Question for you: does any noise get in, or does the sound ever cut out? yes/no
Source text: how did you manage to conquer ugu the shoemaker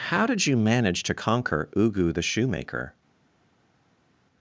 no